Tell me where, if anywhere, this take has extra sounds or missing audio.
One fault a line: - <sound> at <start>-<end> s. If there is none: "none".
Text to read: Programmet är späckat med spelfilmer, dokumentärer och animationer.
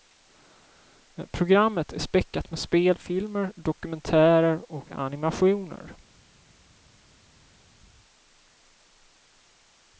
none